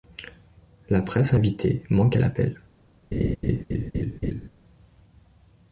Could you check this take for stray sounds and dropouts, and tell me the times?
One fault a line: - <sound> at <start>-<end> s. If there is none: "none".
- laugh at 3.1-4.5 s